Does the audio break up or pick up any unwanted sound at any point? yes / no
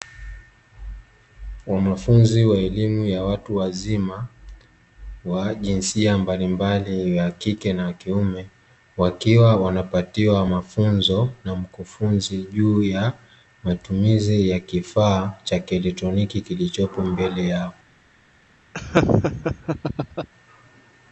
yes